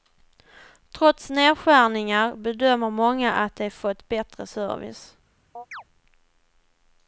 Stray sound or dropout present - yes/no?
yes